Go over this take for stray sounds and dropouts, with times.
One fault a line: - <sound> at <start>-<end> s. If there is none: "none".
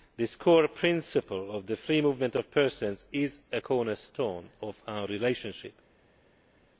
none